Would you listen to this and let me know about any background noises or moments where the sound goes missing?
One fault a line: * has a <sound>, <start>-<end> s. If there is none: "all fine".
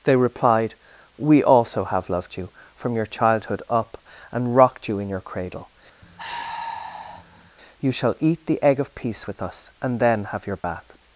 * has a sigh, 6.0-7.5 s
* has a dropout, 10.6-10.6 s